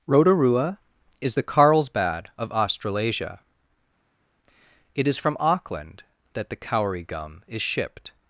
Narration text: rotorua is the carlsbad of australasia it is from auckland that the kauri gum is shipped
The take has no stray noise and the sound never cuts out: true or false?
true